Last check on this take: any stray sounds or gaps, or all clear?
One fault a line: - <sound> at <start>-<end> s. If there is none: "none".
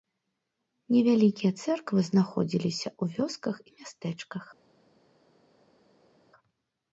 none